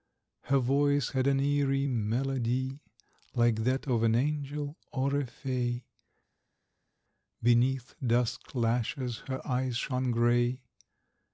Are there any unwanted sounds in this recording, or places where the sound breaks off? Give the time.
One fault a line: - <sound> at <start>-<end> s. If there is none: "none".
none